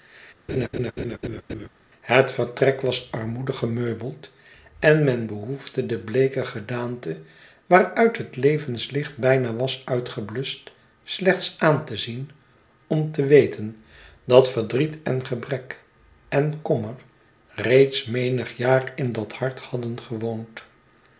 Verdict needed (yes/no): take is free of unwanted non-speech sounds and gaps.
no